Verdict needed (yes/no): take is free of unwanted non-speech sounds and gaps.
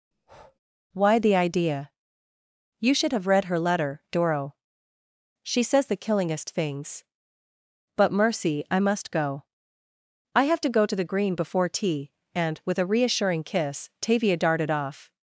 no